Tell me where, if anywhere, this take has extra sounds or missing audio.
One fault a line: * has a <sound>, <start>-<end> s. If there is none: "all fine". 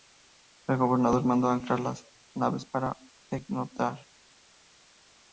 all fine